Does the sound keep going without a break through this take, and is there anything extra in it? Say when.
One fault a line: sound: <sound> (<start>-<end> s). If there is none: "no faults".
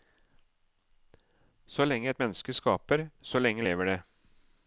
no faults